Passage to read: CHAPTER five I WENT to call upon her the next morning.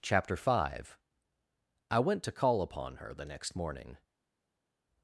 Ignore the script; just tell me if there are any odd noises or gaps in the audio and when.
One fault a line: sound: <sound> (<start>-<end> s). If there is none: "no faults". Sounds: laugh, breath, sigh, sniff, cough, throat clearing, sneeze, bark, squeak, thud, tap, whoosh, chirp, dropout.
no faults